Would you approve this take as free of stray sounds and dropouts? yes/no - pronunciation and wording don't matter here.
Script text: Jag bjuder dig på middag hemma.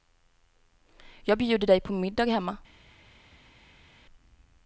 yes